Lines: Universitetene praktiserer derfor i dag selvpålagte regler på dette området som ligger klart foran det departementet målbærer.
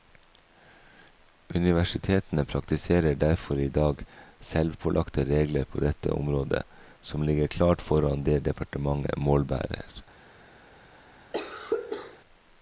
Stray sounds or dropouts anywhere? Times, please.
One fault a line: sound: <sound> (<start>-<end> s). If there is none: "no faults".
sound: cough (11.3-12.2 s)